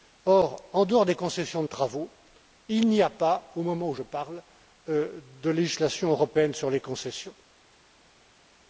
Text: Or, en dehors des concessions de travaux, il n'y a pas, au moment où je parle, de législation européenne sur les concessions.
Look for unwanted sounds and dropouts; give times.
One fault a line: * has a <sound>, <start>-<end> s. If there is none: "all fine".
all fine